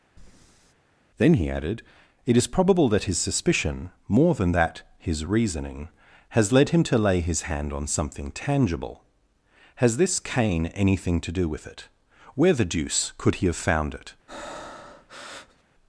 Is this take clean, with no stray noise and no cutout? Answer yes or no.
no